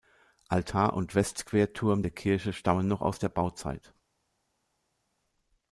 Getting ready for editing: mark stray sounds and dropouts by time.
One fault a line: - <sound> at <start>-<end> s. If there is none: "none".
none